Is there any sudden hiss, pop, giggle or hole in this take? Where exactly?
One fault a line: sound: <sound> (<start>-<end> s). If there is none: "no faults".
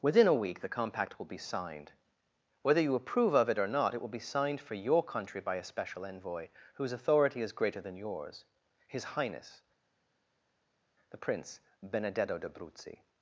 no faults